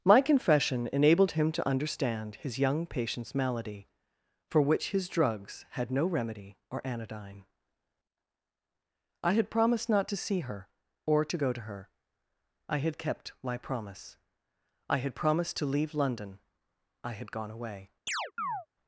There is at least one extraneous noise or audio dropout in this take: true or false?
true